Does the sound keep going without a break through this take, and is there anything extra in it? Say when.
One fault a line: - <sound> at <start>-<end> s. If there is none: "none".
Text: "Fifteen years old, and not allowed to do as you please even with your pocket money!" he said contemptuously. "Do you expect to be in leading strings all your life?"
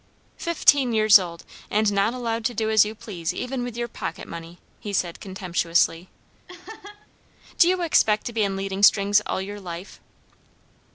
- laugh at 6.5-7.1 s